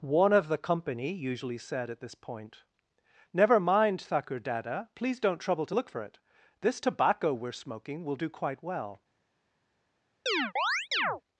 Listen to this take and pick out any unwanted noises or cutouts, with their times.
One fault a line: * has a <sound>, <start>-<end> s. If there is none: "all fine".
* has a chirp, 10.3-11.2 s